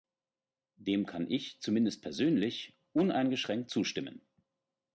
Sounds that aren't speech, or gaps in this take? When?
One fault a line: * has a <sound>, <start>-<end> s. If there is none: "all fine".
all fine